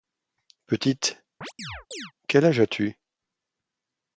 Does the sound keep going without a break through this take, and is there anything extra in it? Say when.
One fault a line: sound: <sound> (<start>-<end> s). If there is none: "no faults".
sound: chirp (1.4-2.1 s)